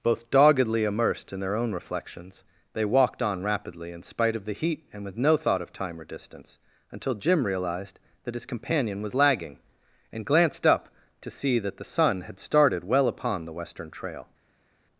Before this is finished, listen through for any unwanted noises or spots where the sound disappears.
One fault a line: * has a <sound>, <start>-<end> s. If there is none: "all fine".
all fine